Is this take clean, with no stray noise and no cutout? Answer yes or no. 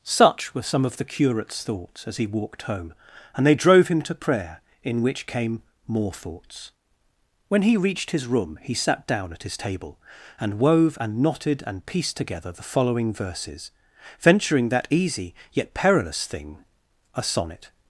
yes